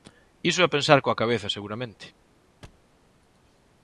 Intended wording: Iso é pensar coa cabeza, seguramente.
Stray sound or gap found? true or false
true